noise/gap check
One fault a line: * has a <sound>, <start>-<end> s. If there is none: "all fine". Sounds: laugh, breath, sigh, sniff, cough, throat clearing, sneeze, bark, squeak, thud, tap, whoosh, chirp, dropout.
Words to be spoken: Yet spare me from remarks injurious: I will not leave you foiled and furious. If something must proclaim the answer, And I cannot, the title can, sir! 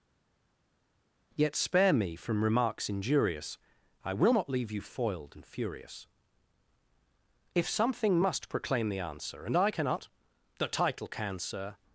all fine